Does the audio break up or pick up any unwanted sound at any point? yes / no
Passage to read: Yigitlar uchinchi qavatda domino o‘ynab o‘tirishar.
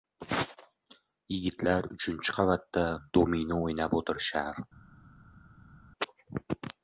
no